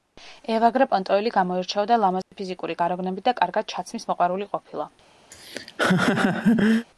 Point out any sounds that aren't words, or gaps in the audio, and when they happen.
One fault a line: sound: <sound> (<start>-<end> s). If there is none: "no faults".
sound: dropout (2.2-2.3 s)
sound: laugh (5.3-6.9 s)